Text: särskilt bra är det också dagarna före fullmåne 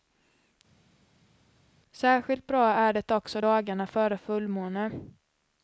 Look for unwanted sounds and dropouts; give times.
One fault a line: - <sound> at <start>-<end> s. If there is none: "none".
none